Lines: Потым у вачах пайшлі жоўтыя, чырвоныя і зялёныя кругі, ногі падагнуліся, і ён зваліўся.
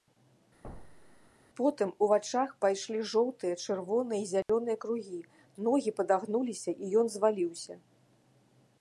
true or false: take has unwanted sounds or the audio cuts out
true